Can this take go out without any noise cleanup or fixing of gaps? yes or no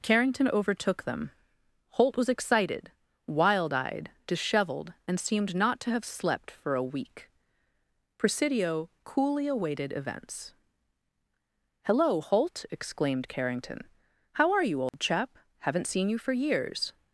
no